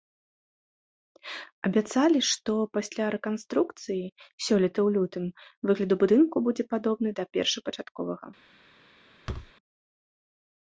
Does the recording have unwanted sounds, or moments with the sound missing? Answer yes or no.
yes